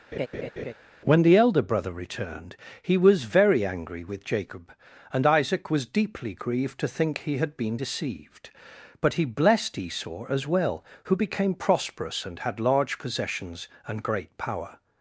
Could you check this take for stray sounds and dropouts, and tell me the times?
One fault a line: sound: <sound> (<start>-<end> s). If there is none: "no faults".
sound: laugh (0.1-0.7 s)